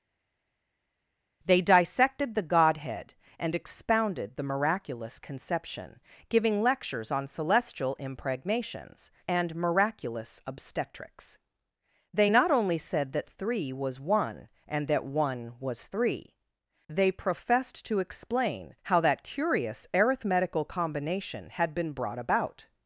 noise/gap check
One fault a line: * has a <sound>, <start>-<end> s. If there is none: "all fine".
all fine